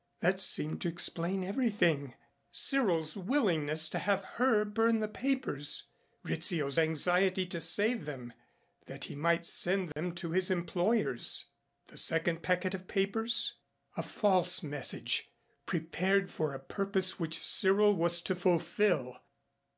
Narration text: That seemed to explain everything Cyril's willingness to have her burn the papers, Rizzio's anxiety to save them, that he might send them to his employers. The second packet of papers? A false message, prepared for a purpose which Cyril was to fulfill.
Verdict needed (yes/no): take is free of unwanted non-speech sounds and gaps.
no